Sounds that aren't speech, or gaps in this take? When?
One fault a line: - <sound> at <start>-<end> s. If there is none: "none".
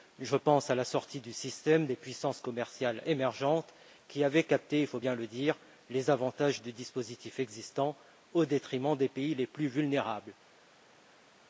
none